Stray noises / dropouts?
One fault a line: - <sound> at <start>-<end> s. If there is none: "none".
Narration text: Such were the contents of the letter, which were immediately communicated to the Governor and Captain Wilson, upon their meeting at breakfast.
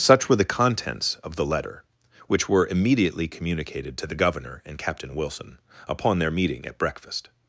none